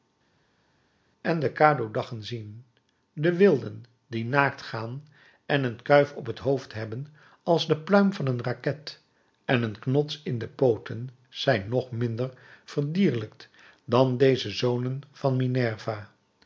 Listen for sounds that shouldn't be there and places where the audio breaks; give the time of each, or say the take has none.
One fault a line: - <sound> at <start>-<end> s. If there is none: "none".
none